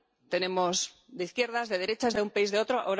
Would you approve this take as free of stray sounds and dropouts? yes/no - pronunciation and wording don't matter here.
yes